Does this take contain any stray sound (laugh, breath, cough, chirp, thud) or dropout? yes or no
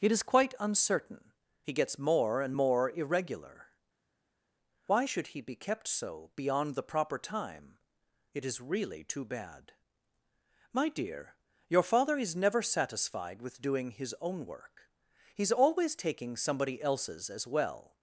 no